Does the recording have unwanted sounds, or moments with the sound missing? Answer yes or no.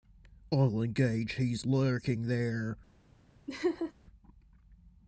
yes